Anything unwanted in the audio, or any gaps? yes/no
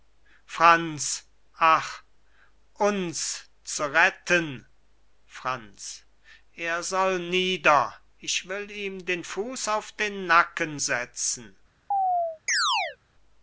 yes